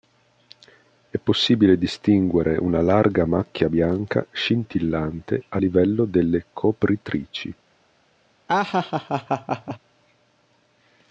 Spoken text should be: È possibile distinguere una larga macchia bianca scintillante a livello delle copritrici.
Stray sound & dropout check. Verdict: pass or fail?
fail